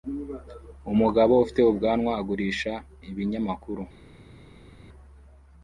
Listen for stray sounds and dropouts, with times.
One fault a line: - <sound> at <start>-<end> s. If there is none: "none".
none